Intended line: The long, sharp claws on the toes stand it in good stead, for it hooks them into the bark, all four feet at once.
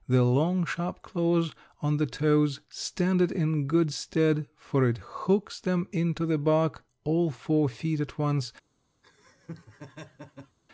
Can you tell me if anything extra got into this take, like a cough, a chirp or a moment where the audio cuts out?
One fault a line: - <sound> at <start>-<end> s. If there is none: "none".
- laugh at 9.0-10.6 s